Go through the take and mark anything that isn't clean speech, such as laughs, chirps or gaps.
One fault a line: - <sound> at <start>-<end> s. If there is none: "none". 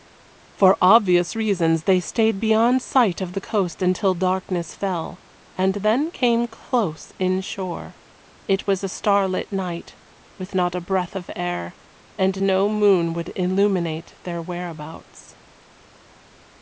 none